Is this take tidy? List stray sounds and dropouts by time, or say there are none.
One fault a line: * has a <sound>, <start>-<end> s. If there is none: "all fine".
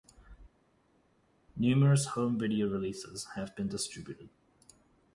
all fine